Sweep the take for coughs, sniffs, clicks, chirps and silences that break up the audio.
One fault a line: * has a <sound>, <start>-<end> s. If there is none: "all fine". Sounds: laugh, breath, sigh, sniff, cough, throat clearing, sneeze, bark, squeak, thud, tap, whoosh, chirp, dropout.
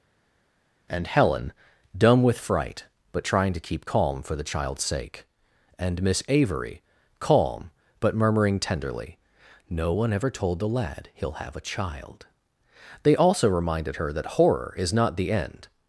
all fine